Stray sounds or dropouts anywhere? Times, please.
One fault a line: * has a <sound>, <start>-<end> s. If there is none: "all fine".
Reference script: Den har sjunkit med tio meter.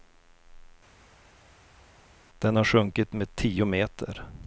all fine